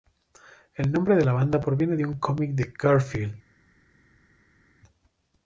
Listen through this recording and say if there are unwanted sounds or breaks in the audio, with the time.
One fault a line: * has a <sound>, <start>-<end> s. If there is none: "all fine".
all fine